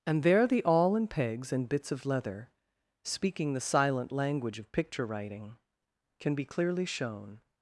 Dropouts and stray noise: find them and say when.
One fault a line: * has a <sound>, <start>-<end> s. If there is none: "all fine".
all fine